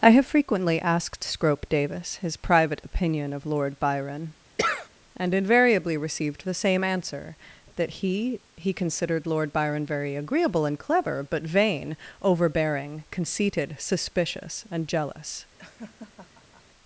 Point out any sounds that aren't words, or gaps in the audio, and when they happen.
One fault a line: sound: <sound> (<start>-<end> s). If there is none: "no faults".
sound: sneeze (4.6-4.9 s)
sound: laugh (15.6-16.6 s)